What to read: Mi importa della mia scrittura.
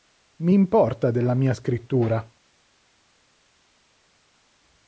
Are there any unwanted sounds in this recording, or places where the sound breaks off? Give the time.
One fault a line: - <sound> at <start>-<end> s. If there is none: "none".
none